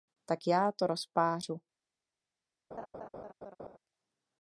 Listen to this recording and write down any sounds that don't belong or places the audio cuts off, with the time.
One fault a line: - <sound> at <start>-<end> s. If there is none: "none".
- laugh at 2.7-3.8 s